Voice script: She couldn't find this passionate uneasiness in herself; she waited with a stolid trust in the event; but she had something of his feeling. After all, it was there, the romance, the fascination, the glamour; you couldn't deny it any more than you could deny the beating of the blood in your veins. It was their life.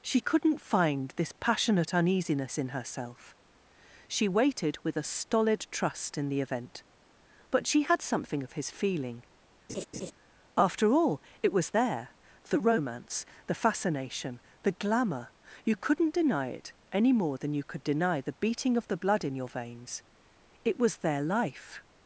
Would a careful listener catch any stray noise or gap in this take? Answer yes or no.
yes